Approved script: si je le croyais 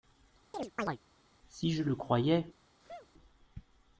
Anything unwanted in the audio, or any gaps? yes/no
yes